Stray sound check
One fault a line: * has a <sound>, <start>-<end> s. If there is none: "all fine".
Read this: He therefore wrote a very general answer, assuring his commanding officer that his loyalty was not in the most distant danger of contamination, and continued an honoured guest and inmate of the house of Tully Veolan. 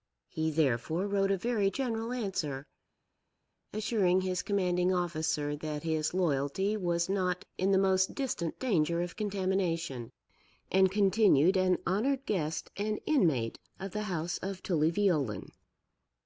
all fine